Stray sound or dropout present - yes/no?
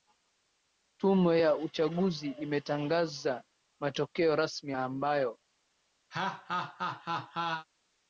yes